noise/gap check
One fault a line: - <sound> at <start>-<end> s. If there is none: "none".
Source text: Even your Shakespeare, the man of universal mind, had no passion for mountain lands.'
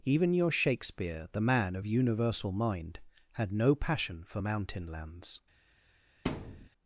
- thud at 6.3-6.7 s